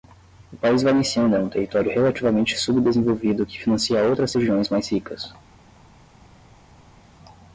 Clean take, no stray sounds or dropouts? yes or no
yes